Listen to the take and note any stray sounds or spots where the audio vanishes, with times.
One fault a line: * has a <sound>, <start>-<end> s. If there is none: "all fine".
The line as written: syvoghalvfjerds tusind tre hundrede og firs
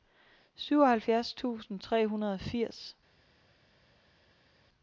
all fine